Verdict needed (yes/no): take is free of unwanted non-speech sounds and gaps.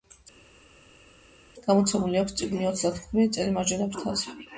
yes